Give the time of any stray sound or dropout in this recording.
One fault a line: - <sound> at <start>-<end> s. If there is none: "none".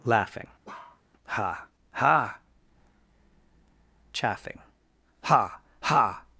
- bark at 0.6-1.0 s